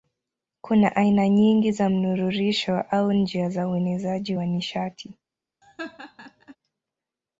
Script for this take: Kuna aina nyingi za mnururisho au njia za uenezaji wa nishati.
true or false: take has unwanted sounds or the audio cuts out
true